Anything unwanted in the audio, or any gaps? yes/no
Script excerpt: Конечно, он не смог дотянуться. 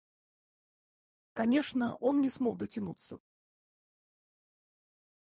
no